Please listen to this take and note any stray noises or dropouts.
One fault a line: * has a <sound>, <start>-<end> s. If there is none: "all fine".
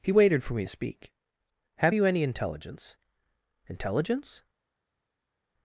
all fine